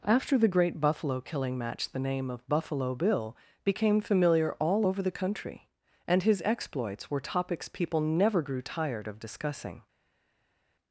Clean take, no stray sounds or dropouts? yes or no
yes